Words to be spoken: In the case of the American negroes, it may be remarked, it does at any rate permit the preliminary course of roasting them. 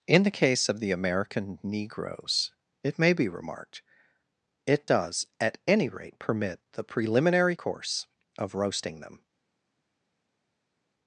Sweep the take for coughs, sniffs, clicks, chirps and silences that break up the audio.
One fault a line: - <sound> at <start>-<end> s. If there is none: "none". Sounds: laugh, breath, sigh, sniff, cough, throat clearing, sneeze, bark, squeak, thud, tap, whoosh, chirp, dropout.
none